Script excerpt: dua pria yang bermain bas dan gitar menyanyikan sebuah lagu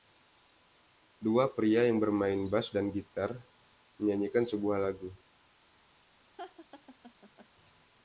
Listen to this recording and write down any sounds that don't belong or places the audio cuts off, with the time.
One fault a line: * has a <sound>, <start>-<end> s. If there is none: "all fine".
* has a laugh, 6.4-7.5 s